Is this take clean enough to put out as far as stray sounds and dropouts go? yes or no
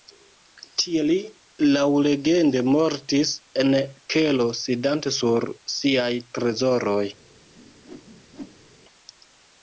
no